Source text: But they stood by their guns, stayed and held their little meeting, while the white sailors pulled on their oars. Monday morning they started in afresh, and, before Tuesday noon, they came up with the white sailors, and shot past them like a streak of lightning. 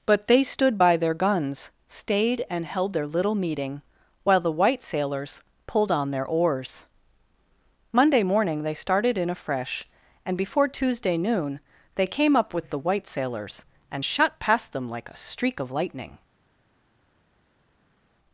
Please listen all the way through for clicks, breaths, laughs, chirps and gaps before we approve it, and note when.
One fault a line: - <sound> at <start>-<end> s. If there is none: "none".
none